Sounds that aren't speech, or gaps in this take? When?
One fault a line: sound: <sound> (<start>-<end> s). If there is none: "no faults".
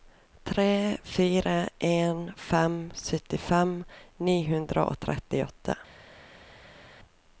no faults